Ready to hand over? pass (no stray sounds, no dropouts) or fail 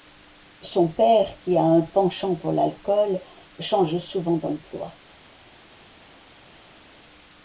pass